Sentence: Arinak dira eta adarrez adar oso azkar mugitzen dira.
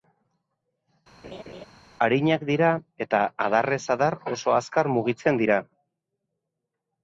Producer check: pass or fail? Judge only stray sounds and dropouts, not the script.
fail